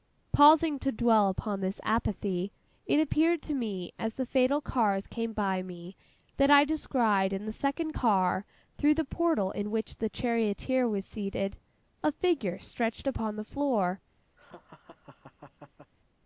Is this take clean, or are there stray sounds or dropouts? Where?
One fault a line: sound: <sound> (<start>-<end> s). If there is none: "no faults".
sound: laugh (14.4-15.9 s)